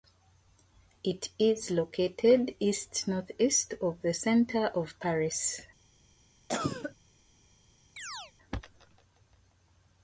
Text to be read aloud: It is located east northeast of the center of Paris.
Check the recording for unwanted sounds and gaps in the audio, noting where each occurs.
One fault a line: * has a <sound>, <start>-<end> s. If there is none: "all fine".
* has a cough, 6.5-7.0 s
* has a chirp, 8.0-8.3 s